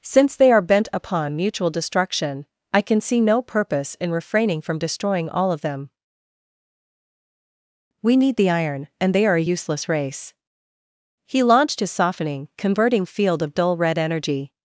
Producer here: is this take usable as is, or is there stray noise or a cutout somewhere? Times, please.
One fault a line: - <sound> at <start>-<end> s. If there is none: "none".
none